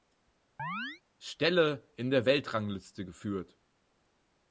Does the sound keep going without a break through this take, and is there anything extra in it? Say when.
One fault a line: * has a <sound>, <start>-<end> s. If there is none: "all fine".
* has a chirp, 0.6-1.0 s